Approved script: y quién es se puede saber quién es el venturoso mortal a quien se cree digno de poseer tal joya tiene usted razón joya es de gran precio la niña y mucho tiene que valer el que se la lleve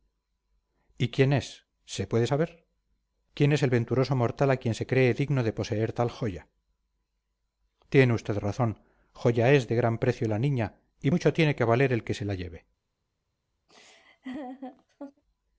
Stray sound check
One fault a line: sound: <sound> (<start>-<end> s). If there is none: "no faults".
sound: laugh (13.7-15.2 s)